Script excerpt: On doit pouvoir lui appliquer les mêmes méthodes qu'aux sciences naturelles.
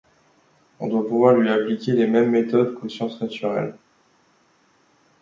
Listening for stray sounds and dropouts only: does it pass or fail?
pass